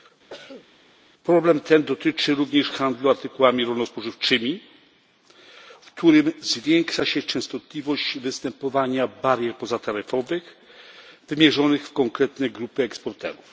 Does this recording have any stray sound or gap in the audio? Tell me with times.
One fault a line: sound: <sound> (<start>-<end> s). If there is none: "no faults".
sound: cough (0.3-0.7 s)